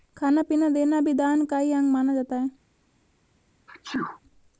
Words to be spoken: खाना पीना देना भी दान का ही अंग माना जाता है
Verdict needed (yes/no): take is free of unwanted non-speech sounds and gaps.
no